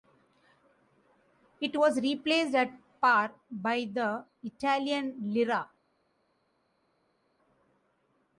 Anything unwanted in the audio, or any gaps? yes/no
no